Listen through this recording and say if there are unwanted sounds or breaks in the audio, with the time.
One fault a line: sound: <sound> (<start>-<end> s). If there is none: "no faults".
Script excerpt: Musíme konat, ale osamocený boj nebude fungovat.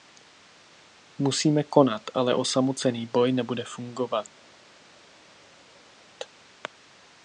no faults